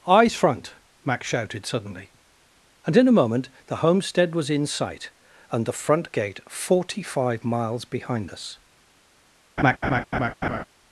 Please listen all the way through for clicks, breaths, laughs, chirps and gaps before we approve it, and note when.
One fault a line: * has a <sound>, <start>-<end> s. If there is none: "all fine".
* has a laugh, 9.6-10.6 s